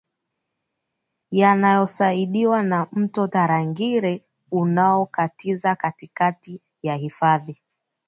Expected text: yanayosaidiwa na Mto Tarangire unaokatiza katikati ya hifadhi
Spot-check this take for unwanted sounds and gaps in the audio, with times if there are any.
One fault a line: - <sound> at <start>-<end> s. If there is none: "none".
none